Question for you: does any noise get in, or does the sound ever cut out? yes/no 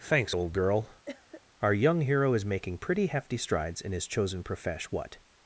yes